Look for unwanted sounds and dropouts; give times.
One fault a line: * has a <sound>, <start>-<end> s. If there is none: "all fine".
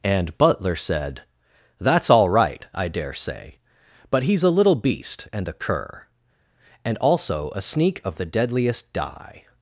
all fine